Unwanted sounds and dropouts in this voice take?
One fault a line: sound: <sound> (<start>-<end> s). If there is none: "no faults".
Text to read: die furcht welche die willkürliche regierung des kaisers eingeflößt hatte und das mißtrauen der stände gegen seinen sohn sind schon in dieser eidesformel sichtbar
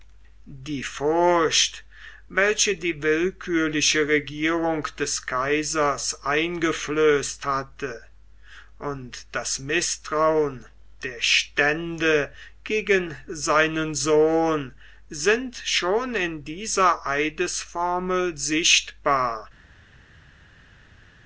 no faults